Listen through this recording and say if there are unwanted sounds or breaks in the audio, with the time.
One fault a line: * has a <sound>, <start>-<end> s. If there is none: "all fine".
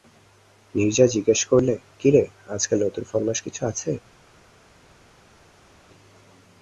all fine